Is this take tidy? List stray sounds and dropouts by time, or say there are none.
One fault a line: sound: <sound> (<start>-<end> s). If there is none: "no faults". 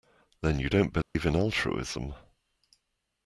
sound: dropout (1.0-1.1 s)